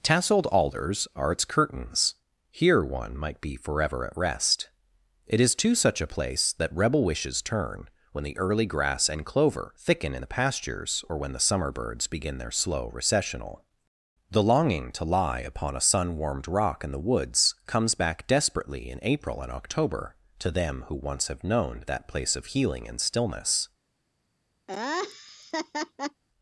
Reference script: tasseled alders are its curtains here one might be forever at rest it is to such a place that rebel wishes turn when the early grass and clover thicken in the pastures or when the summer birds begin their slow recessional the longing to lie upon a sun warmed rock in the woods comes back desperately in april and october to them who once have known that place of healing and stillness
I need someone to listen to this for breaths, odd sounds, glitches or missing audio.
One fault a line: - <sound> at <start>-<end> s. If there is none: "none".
- laugh at 24.7-26.2 s